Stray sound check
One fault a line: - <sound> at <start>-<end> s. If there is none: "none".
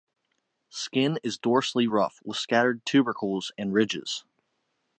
none